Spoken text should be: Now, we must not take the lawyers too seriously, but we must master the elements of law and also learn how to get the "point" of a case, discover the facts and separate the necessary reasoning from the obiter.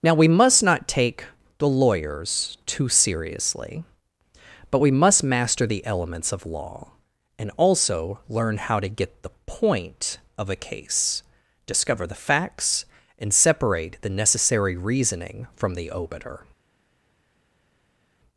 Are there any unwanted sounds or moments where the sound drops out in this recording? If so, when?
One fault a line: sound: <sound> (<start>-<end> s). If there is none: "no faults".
no faults